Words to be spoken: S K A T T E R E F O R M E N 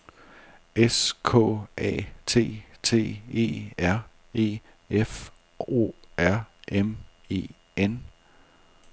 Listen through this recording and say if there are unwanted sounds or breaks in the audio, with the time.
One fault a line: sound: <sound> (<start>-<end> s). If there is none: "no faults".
no faults